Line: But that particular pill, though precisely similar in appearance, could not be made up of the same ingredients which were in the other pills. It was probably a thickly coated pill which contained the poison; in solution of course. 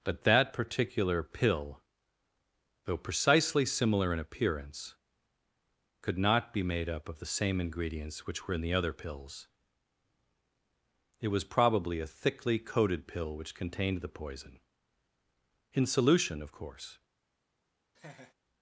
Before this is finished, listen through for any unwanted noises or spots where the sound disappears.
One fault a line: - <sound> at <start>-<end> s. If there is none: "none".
- laugh at 17.9-18.3 s